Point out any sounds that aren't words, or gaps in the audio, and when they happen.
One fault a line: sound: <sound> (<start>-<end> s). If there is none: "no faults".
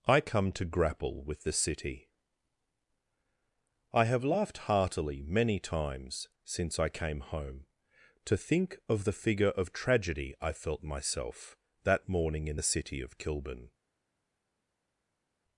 no faults